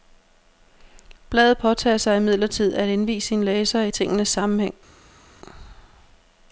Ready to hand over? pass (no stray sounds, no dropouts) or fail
pass